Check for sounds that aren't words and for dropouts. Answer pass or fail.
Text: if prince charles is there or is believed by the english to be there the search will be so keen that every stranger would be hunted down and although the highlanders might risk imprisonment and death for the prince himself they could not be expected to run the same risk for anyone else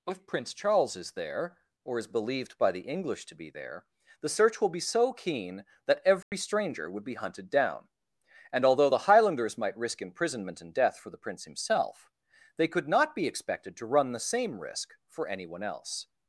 fail